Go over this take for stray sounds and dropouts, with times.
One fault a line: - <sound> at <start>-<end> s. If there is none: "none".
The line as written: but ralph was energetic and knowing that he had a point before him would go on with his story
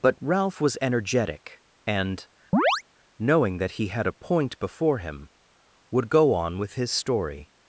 - chirp at 2.5-2.8 s